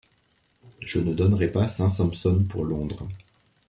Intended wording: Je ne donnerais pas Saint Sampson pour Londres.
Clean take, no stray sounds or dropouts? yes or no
yes